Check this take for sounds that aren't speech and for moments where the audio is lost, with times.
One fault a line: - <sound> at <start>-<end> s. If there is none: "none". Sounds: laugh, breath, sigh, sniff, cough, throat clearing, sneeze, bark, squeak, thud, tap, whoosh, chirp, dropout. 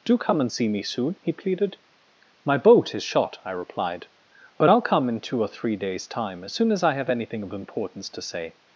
none